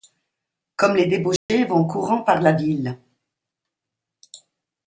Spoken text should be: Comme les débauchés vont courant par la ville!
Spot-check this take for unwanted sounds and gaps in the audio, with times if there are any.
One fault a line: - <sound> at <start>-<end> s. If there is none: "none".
- dropout at 1.4-1.5 s